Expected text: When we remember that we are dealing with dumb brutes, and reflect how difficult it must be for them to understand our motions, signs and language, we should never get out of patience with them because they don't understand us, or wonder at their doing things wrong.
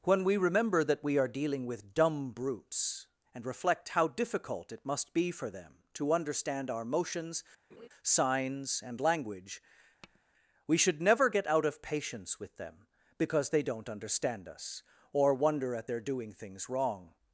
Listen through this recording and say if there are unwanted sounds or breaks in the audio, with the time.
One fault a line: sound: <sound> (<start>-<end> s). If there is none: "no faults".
sound: laugh (7.7-7.9 s)
sound: tap (10.0-10.2 s)